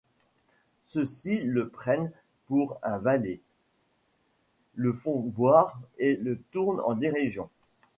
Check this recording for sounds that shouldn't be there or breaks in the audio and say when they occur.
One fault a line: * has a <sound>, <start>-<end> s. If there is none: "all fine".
all fine